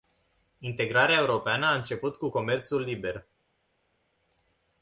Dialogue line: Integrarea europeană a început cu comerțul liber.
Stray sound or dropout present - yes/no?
no